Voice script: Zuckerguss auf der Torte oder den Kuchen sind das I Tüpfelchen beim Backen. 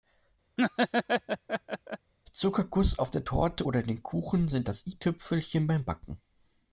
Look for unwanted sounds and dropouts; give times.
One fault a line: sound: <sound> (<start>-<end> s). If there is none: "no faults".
sound: laugh (0.6-2.1 s)